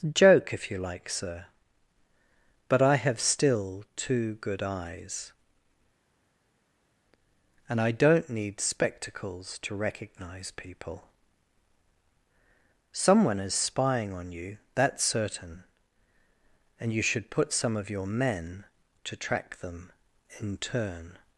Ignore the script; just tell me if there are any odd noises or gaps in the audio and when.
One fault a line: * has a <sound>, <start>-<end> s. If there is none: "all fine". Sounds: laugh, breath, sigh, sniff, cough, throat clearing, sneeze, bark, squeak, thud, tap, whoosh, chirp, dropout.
all fine